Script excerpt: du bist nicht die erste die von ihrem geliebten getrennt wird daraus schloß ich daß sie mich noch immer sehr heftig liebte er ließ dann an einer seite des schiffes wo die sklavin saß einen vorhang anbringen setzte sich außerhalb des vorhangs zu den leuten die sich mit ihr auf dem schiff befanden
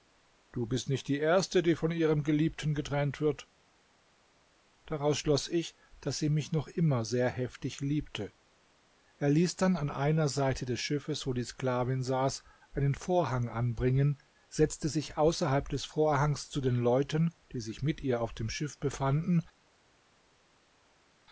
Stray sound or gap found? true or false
false